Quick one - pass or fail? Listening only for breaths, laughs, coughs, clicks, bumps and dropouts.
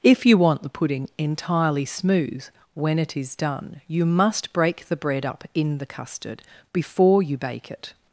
pass